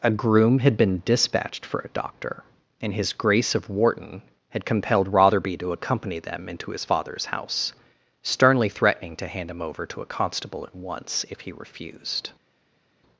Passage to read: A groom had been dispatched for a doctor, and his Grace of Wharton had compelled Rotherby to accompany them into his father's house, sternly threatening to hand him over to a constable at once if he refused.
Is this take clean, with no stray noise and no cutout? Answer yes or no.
yes